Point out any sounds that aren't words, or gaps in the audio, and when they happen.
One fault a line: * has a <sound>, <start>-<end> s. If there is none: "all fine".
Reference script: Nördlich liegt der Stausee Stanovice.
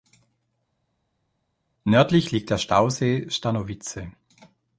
all fine